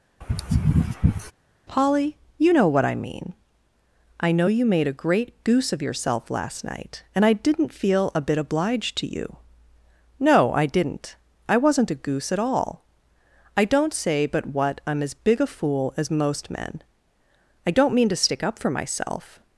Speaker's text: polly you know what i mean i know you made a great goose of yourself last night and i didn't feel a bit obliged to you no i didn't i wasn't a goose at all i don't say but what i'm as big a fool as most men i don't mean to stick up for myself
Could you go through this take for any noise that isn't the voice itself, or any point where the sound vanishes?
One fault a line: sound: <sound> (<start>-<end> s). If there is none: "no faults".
sound: sneeze (0.2-1.3 s)